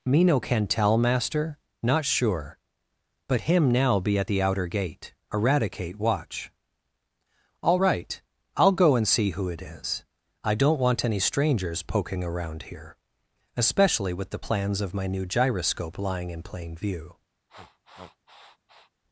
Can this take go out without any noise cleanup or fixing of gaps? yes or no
no